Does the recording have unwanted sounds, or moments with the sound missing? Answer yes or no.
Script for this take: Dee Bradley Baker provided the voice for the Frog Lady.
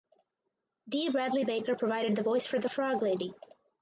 no